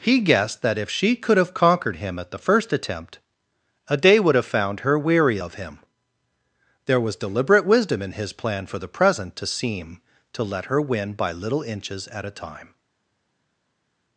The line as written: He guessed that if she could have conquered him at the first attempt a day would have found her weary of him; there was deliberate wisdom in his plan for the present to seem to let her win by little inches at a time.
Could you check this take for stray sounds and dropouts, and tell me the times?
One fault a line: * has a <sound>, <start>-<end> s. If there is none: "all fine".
all fine